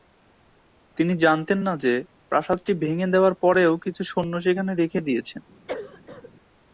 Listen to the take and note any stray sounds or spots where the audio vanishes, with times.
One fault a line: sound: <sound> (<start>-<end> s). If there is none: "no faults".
sound: cough (5.7-6.3 s)